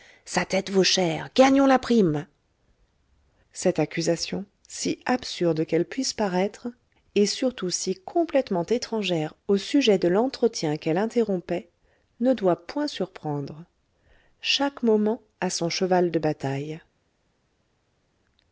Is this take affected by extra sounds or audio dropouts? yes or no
no